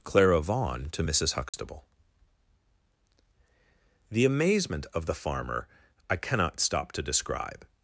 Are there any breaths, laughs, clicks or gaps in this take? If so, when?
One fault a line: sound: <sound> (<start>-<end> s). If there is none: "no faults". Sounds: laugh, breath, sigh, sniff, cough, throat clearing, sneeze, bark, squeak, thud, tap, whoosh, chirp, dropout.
sound: dropout (1.5-1.5 s)